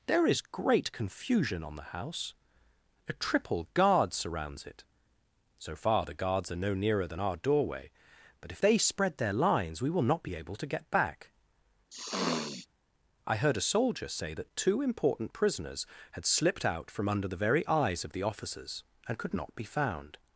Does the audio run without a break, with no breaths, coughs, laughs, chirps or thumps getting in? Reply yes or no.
no